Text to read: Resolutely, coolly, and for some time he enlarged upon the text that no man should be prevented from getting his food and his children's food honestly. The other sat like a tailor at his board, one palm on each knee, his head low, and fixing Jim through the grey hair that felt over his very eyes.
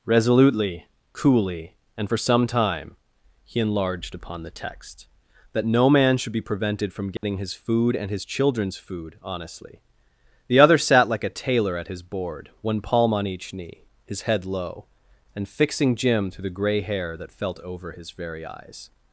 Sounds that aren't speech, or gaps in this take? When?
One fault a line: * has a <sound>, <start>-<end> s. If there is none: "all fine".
* has a dropout, 7.2-7.2 s